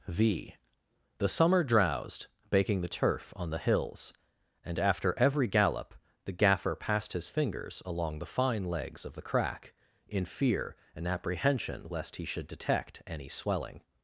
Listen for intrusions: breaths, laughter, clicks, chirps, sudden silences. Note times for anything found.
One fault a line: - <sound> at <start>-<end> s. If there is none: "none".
none